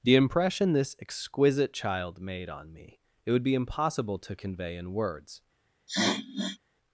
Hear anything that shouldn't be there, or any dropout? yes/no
yes